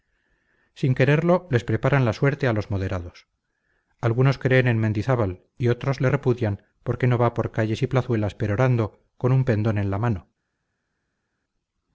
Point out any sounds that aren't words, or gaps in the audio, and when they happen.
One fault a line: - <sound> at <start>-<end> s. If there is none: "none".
none